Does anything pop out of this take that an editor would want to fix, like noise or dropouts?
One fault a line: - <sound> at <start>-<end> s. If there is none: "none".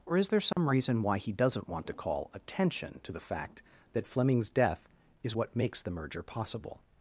- dropout at 0.5-0.6 s